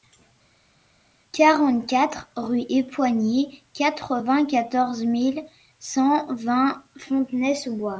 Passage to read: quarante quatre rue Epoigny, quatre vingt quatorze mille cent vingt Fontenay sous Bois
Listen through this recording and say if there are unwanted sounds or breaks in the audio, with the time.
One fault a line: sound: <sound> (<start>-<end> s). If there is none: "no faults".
no faults